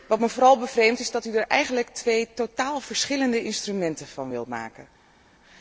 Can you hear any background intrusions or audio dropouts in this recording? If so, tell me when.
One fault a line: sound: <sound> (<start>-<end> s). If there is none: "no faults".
no faults